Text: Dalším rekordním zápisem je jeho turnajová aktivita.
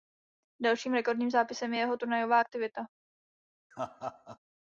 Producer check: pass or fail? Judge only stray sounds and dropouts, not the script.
fail